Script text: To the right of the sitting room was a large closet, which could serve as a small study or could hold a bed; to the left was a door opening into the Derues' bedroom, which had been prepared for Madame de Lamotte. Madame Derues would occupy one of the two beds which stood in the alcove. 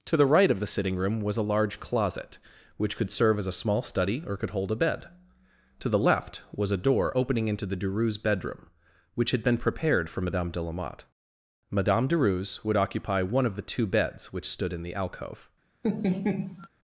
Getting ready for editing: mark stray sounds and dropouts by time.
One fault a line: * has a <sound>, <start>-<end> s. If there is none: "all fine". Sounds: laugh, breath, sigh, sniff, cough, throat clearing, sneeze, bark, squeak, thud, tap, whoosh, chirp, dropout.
* has a laugh, 15.8-16.7 s